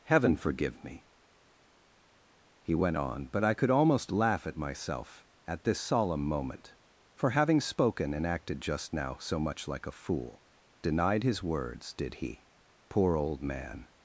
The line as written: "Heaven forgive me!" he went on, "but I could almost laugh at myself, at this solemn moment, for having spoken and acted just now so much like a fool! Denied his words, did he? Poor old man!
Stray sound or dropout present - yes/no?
no